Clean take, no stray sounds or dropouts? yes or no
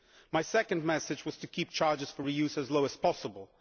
yes